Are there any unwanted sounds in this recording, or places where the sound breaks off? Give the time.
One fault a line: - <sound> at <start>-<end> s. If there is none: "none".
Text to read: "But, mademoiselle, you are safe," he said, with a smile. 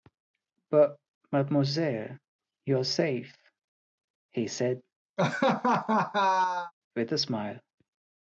- laugh at 5.2-6.7 s